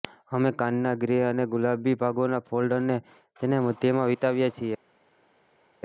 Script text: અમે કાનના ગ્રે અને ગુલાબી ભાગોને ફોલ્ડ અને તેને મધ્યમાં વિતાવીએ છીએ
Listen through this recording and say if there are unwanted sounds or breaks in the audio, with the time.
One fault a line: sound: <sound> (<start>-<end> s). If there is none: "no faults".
no faults